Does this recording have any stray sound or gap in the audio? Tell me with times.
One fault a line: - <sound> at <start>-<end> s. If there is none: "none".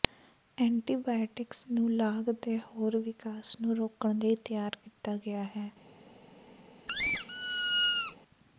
- squeak at 6.9-8.2 s